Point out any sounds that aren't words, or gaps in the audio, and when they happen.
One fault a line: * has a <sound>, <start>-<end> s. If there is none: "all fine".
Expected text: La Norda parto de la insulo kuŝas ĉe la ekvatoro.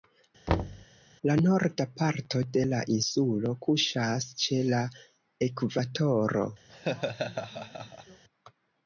* has a thud, 0.5-0.9 s
* has a laugh, 6.7-8.2 s